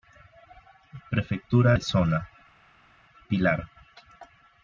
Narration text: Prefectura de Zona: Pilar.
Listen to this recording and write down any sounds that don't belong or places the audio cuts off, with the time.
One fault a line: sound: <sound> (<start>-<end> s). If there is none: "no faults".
no faults